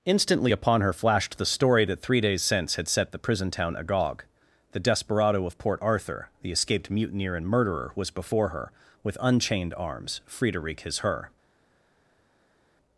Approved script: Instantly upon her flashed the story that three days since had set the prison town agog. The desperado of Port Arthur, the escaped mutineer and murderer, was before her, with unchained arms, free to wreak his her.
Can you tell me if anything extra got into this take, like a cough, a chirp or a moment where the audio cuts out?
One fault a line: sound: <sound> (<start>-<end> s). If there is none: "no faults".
no faults